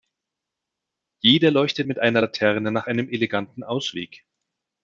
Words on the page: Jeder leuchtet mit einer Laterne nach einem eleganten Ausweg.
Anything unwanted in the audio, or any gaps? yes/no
no